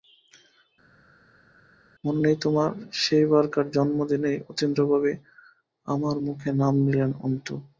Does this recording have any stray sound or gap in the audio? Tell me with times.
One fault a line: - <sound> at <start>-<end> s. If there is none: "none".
none